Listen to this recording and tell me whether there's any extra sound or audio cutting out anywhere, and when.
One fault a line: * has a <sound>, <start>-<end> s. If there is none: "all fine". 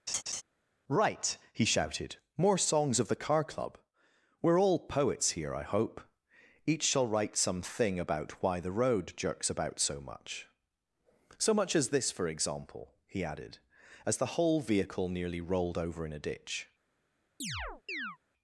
* has a laugh, 0.1-0.4 s
* has a chirp, 17.4-18.2 s